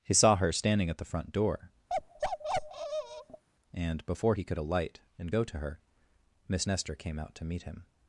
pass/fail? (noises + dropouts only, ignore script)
fail